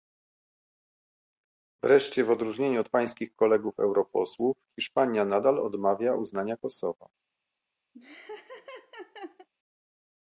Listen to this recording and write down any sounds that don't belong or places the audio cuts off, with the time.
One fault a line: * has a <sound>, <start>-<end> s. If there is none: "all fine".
* has a laugh, 7.9-9.5 s